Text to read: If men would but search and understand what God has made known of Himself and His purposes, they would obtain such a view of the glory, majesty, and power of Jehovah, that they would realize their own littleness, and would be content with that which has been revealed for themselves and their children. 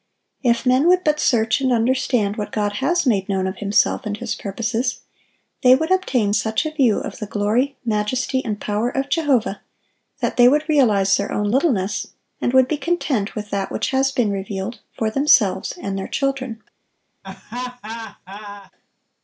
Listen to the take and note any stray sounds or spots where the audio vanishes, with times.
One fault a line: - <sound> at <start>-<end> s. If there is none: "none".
- laugh at 17.2-18.7 s